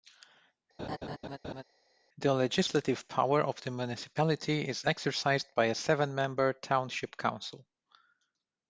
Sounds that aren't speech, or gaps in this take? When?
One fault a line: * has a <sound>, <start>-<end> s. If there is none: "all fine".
* has a laugh, 0.8-1.6 s